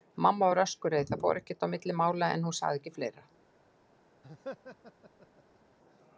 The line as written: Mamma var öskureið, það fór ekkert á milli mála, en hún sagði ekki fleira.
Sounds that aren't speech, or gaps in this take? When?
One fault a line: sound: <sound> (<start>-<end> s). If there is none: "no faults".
sound: laugh (4.2-5.6 s)